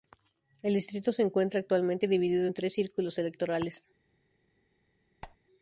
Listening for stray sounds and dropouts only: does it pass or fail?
fail